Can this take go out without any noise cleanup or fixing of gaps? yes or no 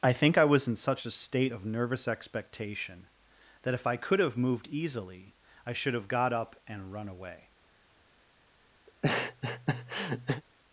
no